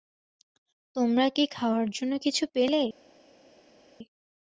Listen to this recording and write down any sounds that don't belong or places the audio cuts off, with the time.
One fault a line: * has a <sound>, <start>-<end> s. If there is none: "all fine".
all fine